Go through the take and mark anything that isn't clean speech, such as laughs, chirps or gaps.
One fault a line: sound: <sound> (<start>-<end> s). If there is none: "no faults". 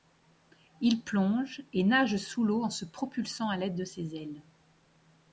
no faults